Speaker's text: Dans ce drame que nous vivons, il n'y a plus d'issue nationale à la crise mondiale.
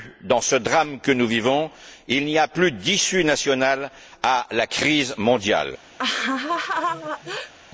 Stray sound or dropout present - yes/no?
yes